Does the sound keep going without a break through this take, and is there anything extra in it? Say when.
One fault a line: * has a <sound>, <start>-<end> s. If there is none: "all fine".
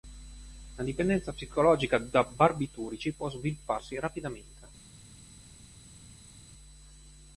all fine